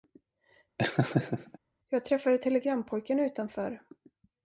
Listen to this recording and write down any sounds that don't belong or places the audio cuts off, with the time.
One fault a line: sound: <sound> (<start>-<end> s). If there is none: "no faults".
sound: laugh (0.8-1.6 s)